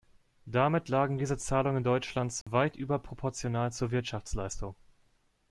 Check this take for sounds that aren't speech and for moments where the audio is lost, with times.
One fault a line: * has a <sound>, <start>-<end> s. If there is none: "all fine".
* has a dropout, 2.4-2.5 s